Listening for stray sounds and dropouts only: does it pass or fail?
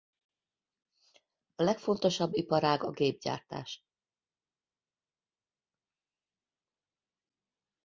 pass